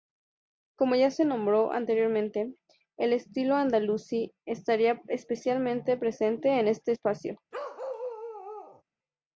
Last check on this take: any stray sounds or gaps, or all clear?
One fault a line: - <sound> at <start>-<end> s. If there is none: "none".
- bark at 7.5-8.8 s